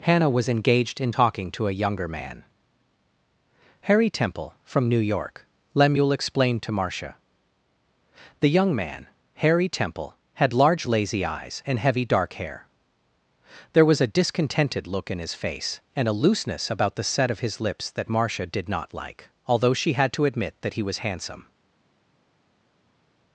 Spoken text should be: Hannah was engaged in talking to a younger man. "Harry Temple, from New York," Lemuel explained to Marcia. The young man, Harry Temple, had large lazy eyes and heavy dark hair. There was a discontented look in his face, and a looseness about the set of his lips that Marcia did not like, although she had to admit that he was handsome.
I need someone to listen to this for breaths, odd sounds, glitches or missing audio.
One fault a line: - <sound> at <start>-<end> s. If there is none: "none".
none